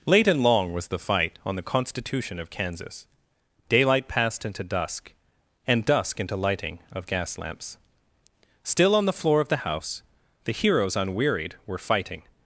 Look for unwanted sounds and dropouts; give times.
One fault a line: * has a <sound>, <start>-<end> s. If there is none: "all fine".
all fine